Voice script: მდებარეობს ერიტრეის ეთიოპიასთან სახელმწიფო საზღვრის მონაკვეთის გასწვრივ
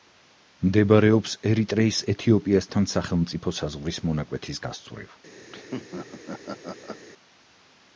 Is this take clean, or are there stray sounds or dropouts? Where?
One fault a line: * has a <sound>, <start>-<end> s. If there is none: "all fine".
* has a laugh, 5.5-7.0 s